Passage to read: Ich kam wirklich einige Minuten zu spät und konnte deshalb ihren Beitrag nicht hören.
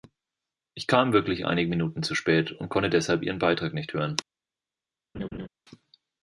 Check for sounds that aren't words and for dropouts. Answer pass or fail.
fail